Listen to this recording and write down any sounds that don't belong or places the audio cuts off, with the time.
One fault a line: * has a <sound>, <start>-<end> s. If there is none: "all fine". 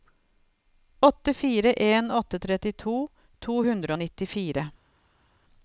all fine